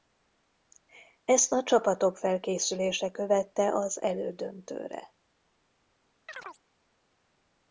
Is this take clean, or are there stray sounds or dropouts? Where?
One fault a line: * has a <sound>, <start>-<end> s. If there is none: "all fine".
* has a chirp, 6.3-6.6 s